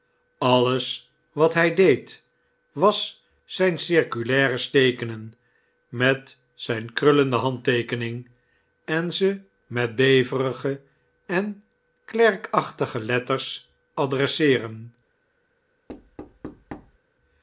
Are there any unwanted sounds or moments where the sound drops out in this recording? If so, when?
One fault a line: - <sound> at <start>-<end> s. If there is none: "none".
- thud at 15.9-17.0 s